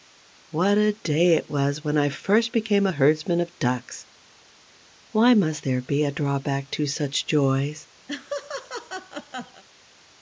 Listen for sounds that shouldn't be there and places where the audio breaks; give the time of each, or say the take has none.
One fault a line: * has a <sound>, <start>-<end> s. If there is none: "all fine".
* has a laugh, 8.1-9.6 s